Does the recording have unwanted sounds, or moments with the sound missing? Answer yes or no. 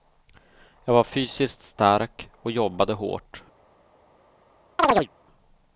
yes